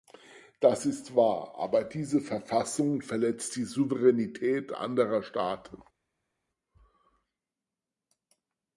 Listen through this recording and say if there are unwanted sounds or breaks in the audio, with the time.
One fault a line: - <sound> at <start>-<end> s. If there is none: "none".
none